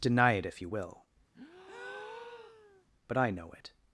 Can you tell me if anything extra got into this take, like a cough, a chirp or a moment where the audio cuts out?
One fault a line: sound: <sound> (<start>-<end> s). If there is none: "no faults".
sound: breath (1.3-2.8 s)